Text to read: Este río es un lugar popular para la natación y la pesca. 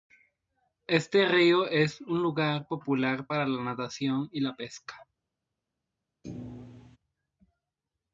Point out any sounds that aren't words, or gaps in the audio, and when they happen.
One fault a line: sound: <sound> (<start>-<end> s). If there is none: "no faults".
sound: thud (6.2-7.0 s)